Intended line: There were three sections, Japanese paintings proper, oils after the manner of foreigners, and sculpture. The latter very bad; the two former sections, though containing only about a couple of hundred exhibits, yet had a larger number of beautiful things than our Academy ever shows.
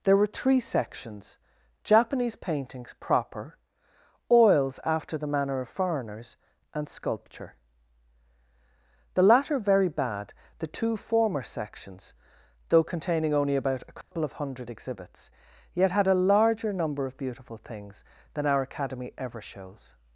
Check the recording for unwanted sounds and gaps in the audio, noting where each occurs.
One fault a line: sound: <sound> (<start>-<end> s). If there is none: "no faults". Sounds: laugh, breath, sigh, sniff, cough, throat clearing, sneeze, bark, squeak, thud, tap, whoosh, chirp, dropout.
sound: dropout (14.0-14.1 s)